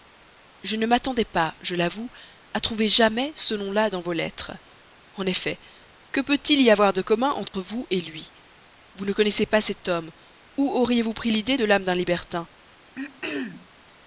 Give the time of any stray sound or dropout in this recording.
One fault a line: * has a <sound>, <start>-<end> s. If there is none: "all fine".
* has a dropout, 7.5-7.5 s
* has a throat clearing, 12.9-13.7 s